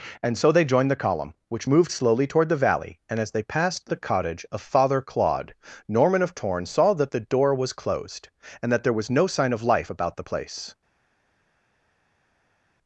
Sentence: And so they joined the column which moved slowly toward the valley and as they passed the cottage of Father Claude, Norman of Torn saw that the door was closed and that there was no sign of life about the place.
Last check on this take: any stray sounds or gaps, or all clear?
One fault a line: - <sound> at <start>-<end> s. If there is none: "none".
none